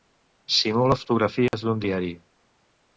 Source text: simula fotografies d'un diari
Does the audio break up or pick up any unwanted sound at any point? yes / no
yes